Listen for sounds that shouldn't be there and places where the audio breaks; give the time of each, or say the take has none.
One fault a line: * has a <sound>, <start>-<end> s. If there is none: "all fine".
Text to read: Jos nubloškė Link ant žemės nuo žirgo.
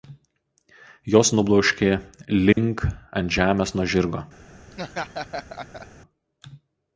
* has a dropout, 2.5-2.6 s
* has a laugh, 4.7-5.9 s